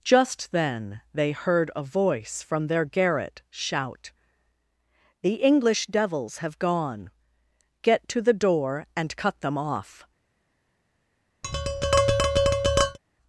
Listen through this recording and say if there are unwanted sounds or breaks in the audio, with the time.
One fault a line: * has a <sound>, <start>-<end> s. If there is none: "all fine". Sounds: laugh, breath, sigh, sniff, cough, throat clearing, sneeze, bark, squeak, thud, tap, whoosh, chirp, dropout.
* has a tap, 11.4-13.0 s